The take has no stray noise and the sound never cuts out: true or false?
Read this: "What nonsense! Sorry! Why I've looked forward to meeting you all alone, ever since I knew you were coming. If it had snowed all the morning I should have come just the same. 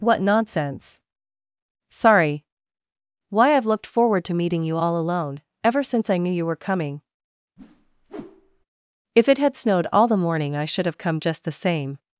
false